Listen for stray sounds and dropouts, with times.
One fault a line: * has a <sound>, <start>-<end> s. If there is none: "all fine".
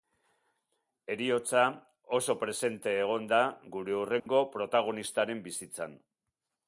* has a dropout, 4.2-4.3 s